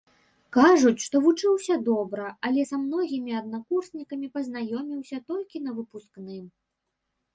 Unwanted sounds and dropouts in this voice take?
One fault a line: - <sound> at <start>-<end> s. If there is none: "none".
none